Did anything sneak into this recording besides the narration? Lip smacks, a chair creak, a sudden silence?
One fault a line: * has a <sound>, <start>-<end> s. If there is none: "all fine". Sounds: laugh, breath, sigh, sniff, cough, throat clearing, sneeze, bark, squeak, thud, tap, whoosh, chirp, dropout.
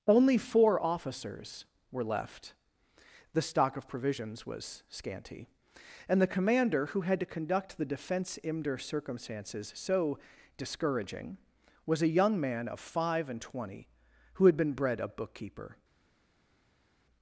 all fine